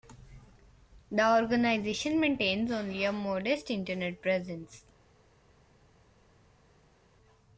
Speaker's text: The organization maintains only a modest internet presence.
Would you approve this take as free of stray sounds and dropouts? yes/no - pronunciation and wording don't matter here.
yes